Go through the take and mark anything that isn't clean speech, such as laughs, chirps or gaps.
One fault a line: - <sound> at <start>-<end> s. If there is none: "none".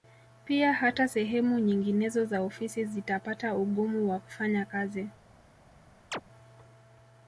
- chirp at 6.1-6.2 s